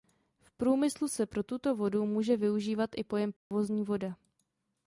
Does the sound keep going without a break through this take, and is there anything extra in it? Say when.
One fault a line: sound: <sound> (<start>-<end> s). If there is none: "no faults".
sound: dropout (3.4-3.5 s)